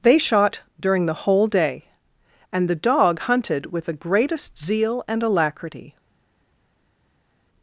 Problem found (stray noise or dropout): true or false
false